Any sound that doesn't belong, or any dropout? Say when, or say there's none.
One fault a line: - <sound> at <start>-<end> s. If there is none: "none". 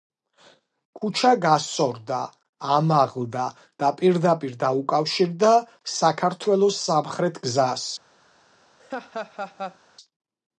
- laugh at 8.8-9.8 s